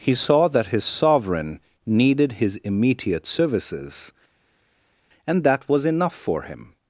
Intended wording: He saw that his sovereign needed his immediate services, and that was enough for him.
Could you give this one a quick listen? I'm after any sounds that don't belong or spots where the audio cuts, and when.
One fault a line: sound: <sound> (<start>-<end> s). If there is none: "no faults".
no faults